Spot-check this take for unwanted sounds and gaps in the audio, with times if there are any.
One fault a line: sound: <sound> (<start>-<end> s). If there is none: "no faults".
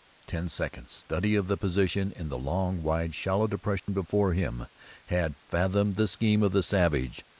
sound: dropout (3.8-3.9 s)